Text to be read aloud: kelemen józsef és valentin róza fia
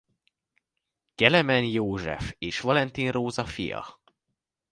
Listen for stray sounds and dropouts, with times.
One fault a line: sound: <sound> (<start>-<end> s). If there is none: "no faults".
no faults